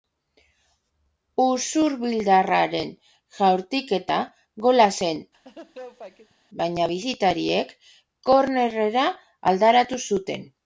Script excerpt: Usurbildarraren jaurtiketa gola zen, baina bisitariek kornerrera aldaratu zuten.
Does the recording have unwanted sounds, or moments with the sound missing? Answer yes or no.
yes